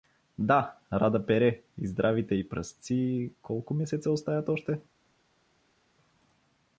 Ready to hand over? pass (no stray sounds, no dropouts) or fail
pass